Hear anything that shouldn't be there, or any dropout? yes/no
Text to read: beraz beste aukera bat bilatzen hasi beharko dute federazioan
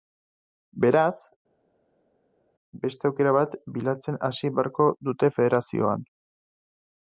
no